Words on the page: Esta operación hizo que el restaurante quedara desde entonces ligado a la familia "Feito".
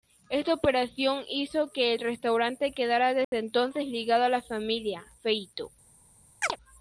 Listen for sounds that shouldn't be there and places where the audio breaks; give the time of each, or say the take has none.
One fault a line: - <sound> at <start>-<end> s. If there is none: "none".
- dropout at 3.2-3.3 s
- chirp at 6.4-6.6 s